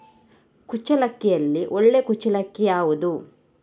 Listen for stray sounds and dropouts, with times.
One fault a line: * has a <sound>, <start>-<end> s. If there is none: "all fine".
all fine